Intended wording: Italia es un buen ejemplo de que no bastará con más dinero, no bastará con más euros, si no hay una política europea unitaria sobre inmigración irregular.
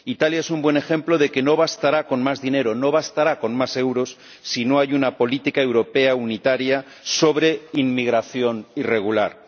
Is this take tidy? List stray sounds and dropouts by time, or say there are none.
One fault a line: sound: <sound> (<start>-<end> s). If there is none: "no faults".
no faults